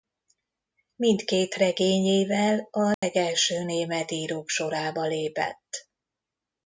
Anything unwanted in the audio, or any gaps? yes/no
yes